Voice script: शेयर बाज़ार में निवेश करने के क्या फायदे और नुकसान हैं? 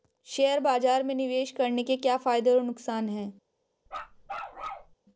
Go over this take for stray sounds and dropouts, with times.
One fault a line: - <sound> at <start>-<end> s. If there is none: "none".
- bark at 3.9-5.0 s